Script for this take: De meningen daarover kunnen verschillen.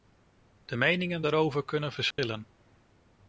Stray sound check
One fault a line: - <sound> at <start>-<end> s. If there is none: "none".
- dropout at 2.1-2.2 s